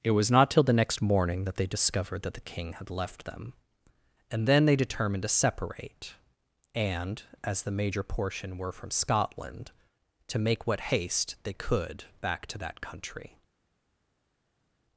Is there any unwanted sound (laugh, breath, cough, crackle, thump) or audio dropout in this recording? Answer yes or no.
no